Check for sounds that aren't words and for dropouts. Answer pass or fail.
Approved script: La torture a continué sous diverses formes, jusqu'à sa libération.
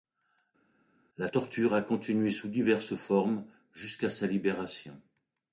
pass